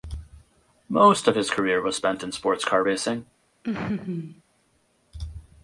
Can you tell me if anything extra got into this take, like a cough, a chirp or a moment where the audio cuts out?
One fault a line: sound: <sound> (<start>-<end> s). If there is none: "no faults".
sound: laugh (3.6-4.4 s)